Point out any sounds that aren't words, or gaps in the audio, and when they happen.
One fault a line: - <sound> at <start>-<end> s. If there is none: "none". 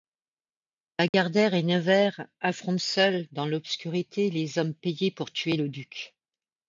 - dropout at 1.1-1.1 s